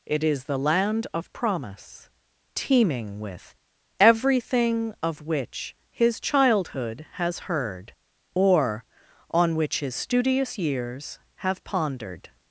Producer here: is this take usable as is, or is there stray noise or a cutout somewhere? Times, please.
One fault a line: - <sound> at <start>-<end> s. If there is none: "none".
none